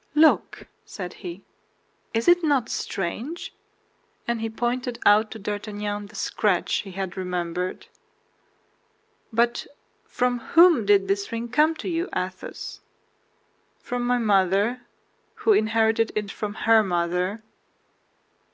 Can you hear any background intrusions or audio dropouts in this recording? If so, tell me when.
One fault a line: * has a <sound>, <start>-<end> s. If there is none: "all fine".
all fine